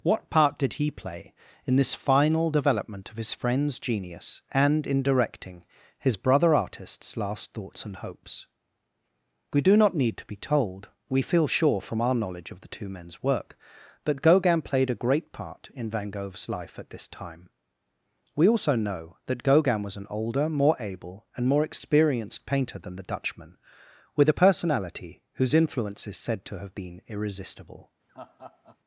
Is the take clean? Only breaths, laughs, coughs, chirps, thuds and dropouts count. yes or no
no